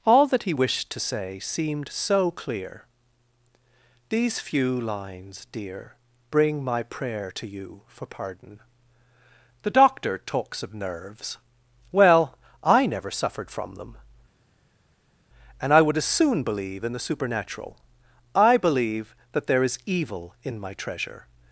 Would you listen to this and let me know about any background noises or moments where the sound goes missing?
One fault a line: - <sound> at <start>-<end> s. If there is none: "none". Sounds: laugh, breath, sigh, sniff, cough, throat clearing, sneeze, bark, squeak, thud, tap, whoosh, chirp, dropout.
none